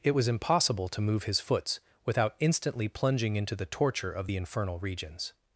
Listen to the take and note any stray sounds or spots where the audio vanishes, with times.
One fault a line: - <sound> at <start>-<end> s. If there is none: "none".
none